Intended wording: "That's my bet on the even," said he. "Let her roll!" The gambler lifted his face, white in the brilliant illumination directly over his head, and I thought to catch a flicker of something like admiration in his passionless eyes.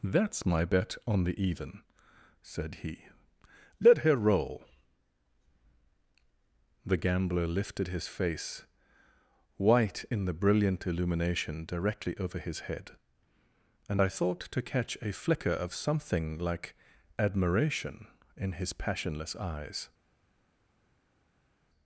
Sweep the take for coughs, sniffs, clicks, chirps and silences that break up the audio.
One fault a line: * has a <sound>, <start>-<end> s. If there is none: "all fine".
all fine